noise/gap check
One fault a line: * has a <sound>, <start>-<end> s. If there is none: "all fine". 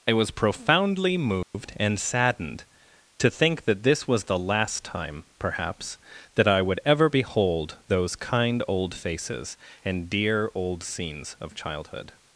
* has a dropout, 1.4-1.5 s